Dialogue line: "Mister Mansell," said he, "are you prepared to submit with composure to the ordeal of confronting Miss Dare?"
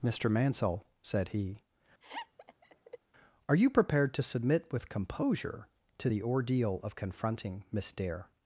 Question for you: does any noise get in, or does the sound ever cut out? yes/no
yes